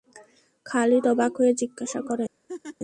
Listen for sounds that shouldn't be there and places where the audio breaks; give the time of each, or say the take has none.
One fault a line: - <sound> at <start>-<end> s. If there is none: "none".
- laugh at 2.5-2.8 s